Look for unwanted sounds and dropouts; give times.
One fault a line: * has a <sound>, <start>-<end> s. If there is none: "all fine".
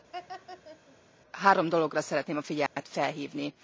* has a laugh, 0.1-1.0 s
* has a dropout, 2.7-2.8 s